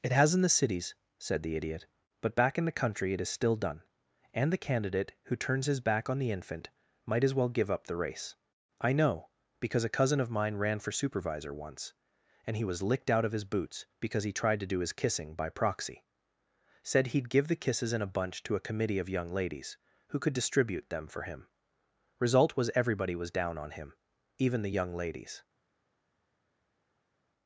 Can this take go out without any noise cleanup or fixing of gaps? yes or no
yes